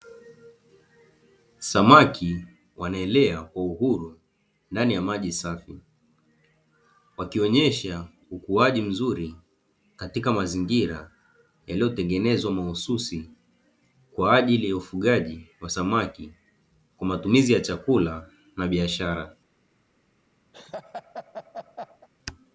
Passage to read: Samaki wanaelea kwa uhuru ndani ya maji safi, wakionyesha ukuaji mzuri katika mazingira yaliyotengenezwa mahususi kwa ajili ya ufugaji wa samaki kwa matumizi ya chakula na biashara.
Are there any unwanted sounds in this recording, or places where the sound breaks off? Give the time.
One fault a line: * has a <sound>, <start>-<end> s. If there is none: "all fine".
* has a laugh, 20.5-22.1 s